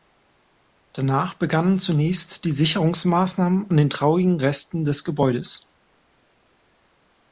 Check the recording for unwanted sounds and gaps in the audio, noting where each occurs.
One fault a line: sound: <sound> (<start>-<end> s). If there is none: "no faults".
no faults